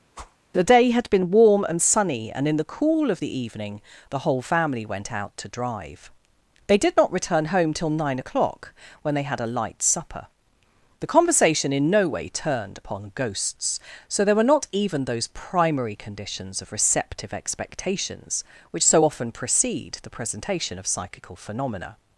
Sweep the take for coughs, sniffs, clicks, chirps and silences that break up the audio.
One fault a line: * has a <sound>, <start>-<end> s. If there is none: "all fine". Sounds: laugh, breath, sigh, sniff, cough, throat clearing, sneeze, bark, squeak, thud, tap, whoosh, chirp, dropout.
* has a whoosh, 0.1-0.4 s